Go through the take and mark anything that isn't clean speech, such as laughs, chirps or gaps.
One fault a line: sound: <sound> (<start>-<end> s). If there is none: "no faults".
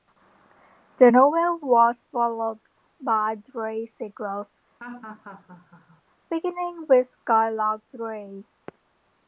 sound: laugh (4.8-6.0 s)